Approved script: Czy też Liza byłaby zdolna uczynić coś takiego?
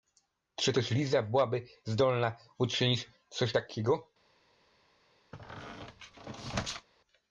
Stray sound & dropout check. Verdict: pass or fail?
fail